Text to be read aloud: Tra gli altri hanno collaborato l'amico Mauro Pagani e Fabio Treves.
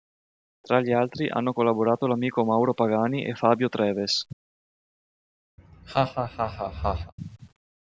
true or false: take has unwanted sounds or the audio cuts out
true